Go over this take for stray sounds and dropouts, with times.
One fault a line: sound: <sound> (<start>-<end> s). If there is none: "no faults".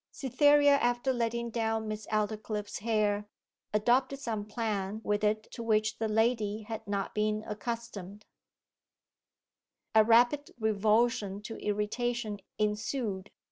no faults